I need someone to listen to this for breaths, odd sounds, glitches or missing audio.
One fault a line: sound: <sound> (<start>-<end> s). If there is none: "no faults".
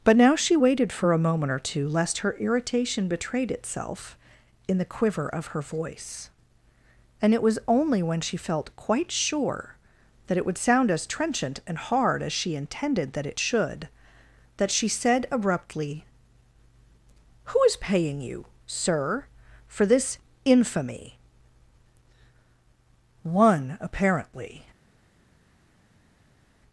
no faults